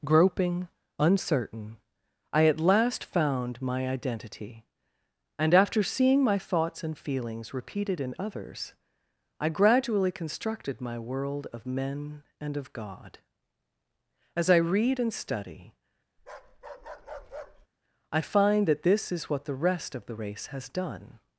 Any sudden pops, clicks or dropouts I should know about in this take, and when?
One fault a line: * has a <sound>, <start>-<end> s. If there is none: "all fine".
* has a bark, 16.2-17.7 s